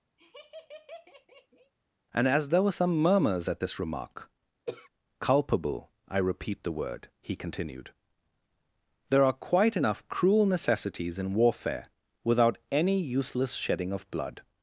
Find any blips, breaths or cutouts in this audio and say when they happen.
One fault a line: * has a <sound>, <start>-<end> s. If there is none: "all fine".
* has a laugh, 0.2-1.7 s
* has a throat clearing, 4.7-4.9 s